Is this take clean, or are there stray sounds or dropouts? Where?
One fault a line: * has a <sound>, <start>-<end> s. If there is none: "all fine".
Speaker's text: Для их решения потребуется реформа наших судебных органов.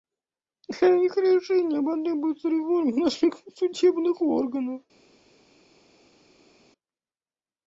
all fine